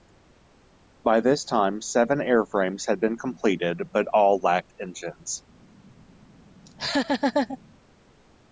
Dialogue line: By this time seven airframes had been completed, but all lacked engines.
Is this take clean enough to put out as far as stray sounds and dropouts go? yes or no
no